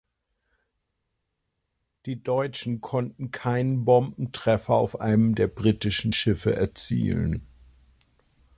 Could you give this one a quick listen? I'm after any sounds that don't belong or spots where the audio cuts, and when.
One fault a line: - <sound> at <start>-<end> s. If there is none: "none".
none